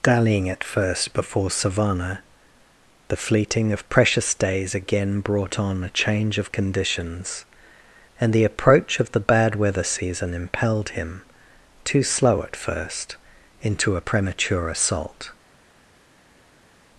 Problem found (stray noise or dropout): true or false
false